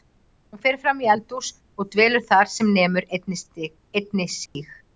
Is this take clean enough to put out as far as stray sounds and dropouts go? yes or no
no